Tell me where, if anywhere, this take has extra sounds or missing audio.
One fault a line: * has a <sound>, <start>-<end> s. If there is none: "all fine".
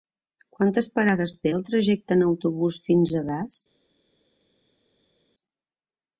all fine